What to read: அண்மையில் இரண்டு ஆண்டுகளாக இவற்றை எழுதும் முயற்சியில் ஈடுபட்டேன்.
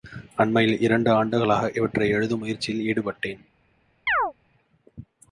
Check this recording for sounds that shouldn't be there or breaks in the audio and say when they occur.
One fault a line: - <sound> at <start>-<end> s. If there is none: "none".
- chirp at 4.1-4.3 s